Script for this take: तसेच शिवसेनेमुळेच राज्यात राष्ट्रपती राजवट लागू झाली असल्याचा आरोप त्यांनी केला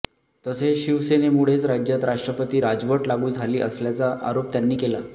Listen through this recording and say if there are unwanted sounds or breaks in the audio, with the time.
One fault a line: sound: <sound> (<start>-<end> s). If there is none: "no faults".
no faults